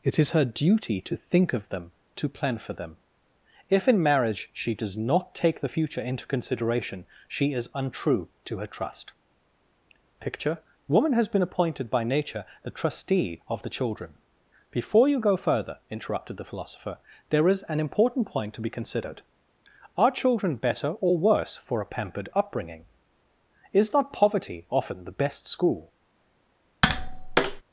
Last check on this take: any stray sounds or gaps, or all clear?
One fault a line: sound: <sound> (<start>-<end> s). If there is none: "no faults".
sound: tap (26.8-27.6 s)